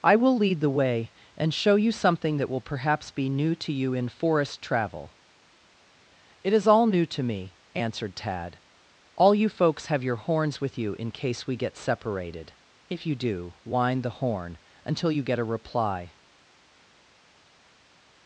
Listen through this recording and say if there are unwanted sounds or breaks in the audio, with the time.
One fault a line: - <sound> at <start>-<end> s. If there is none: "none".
none